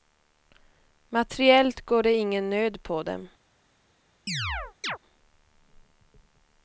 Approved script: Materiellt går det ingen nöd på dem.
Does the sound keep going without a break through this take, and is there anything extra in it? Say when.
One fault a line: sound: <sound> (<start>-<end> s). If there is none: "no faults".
sound: chirp (4.3-5.0 s)